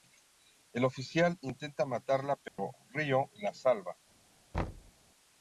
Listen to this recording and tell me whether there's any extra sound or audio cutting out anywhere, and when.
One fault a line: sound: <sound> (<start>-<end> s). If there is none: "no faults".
sound: dropout (2.5-2.6 s)
sound: thud (4.5-4.9 s)